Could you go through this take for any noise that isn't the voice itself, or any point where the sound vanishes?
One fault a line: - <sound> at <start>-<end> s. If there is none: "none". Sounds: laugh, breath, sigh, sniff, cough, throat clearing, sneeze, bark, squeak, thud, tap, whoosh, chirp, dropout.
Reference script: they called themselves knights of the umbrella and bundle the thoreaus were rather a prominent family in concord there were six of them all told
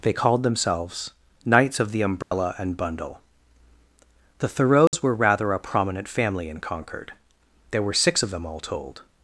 - dropout at 2.2-2.3 s
- dropout at 4.9-4.9 s